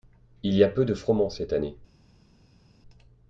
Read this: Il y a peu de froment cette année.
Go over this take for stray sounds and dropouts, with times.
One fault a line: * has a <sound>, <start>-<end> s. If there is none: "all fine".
all fine